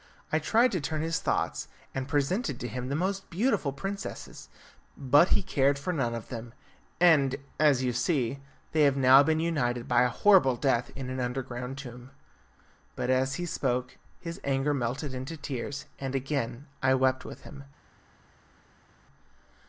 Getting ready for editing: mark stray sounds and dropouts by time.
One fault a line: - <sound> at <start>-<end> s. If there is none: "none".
none